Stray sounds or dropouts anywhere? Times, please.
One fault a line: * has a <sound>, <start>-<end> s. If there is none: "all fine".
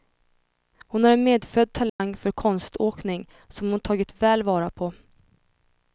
* has a dropout, 1.9-2.0 s